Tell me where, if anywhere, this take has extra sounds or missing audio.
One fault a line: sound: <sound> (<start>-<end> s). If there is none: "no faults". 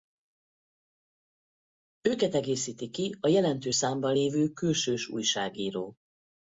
no faults